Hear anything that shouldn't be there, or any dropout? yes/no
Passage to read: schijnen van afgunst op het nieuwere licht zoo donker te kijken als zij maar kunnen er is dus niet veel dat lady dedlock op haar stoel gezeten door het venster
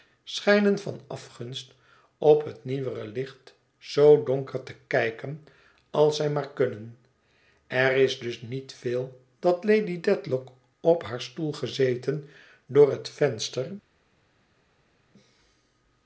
no